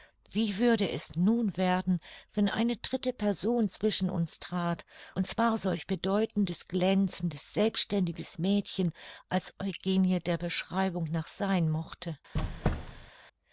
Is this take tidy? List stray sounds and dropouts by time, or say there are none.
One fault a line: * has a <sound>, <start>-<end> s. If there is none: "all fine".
* has a squeak, 12.3-13.1 s